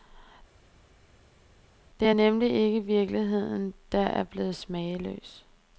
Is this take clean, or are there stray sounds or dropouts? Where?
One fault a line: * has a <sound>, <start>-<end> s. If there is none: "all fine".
all fine